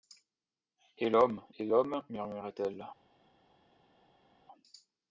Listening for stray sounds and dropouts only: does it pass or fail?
pass